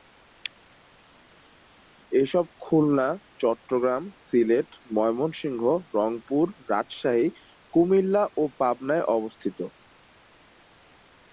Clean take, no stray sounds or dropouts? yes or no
yes